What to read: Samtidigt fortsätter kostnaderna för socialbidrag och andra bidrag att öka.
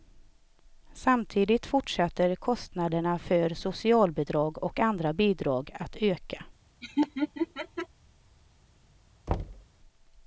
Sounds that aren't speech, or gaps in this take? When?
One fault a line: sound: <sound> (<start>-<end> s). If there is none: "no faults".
sound: laugh (6.8-7.9 s)
sound: thud (9.3-9.7 s)